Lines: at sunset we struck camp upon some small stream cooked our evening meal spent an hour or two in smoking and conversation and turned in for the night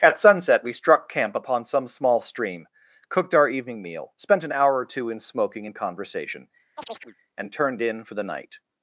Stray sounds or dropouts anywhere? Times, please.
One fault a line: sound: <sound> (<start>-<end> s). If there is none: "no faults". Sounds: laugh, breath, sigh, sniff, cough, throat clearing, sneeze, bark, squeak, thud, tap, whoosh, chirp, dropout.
sound: chirp (6.8-7.2 s)